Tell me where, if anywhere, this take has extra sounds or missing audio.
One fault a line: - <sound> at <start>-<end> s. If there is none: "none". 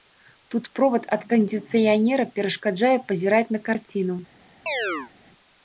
- chirp at 4.7-5.1 s